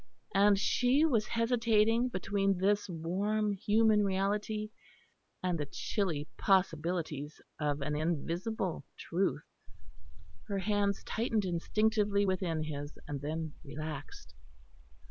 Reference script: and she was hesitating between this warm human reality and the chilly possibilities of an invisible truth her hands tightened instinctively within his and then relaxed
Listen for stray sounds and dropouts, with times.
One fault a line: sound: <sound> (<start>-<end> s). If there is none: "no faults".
no faults